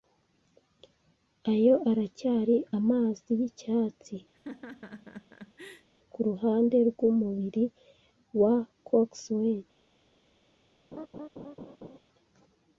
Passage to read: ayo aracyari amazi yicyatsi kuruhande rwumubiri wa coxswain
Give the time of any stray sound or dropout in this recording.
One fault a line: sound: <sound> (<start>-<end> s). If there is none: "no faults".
sound: laugh (4.3-5.9 s)
sound: laugh (10.9-12.0 s)